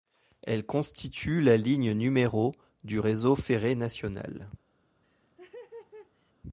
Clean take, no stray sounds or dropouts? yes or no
no